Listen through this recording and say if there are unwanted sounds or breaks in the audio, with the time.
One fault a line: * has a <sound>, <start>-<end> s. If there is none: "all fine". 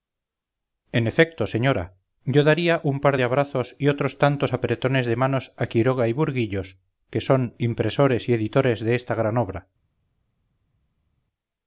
all fine